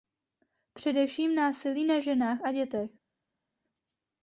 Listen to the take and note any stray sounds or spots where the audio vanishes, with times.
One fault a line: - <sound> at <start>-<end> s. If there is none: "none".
none